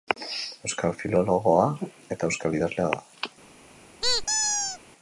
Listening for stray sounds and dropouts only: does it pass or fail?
fail